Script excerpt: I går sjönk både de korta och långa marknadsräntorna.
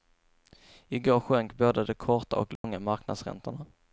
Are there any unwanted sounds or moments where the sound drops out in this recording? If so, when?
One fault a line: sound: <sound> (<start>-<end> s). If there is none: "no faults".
sound: dropout (2.6-2.6 s)